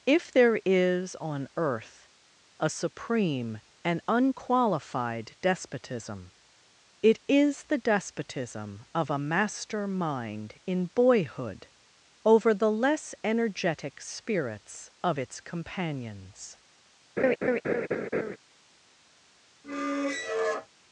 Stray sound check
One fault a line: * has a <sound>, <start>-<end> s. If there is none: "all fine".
* has a laugh, 17.2-18.4 s
* has a squeak, 19.6-20.7 s